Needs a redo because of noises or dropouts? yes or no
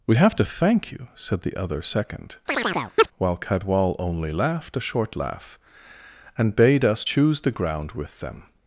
yes